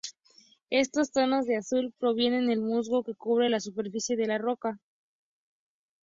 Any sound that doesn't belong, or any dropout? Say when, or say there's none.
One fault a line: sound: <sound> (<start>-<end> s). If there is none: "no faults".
no faults